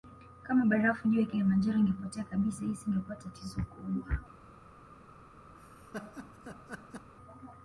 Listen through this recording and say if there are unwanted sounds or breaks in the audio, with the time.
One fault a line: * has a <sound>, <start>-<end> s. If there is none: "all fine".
* has a laugh, 5.5-7.1 s